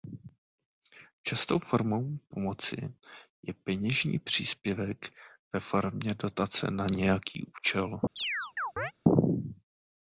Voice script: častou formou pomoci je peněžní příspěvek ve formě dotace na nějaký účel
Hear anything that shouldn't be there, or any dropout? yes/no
yes